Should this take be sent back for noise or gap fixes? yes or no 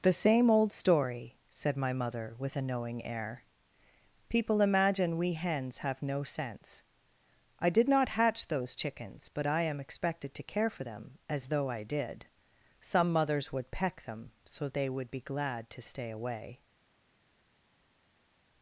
no